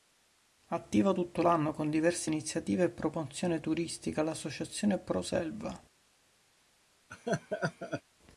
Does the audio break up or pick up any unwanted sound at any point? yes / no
yes